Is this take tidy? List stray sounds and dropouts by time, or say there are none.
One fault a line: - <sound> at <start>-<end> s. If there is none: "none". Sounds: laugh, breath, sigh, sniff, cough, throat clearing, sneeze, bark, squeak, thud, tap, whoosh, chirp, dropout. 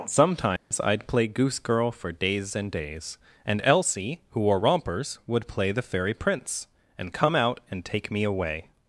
- dropout at 0.6-0.7 s